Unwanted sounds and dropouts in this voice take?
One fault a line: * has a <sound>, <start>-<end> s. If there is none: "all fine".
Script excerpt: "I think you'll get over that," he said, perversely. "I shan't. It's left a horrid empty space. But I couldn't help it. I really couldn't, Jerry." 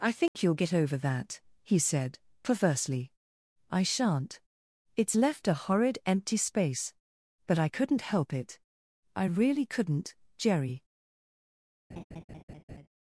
* has a dropout, 0.3-0.3 s
* has a laugh, 11.9-12.9 s